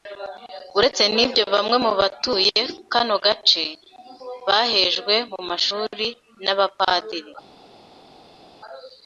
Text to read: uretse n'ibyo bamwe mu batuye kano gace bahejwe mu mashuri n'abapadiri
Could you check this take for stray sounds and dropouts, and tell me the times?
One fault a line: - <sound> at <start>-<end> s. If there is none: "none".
none